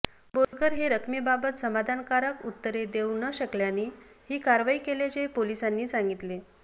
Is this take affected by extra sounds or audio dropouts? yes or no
yes